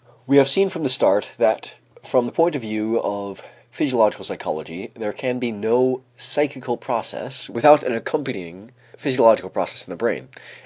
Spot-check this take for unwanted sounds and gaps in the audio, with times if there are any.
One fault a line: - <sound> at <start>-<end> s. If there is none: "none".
none